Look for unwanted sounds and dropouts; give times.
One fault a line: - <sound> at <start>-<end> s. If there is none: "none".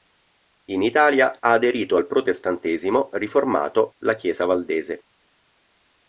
none